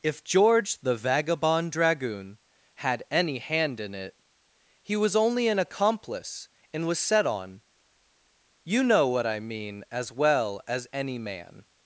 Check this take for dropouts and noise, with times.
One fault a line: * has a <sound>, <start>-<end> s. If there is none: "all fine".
all fine